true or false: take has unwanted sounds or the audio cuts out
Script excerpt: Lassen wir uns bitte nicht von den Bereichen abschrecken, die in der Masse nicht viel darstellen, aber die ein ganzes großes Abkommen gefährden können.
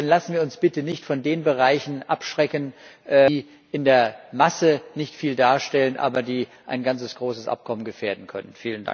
false